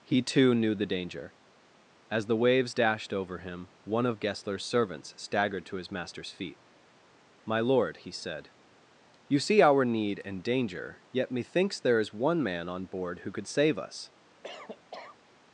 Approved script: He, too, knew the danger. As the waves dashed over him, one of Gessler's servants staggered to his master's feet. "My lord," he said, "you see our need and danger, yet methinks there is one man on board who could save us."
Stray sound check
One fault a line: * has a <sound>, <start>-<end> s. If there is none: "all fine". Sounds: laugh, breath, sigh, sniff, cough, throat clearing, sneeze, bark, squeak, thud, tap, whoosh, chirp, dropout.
* has a cough, 14.4-15.2 s